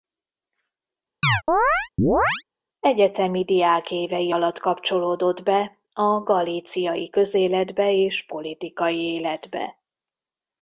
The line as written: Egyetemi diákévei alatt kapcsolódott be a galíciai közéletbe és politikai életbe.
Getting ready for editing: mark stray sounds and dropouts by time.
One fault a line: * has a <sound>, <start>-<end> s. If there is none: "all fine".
* has a chirp, 1.2-2.4 s